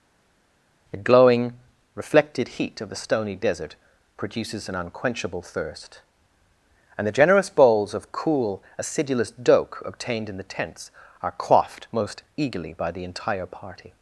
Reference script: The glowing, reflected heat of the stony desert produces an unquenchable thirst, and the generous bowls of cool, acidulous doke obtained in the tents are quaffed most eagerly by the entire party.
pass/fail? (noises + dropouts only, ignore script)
pass